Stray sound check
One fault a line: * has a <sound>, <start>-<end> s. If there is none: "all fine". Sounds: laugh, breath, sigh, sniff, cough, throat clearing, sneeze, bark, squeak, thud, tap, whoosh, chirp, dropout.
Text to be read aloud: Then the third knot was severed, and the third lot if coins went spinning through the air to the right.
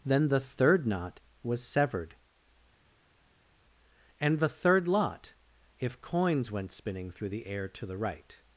all fine